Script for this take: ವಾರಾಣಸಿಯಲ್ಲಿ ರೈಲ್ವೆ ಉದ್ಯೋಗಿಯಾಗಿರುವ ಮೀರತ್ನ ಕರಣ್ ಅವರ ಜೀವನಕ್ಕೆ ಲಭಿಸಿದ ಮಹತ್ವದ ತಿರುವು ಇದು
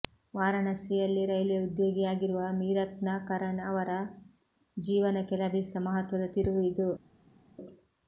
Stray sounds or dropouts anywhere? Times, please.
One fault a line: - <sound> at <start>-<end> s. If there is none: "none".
none